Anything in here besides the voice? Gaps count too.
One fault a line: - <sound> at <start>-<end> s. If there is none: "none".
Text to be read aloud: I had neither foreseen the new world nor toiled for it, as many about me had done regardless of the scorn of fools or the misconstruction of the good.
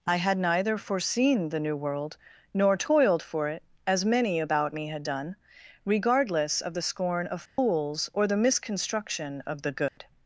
- dropout at 7.5-7.6 s
- dropout at 9.9-10.0 s